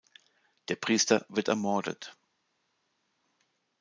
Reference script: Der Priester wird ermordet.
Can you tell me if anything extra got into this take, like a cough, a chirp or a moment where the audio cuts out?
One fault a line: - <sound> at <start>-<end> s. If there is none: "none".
none